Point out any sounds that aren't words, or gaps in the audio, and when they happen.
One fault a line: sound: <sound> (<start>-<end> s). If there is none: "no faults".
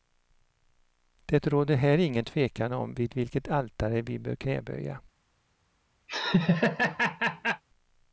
sound: laugh (6.1-7.6 s)